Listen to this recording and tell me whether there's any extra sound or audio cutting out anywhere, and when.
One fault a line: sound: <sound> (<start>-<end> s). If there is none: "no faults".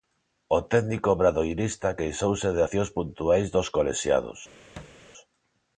sound: thud (4.8-5.0 s)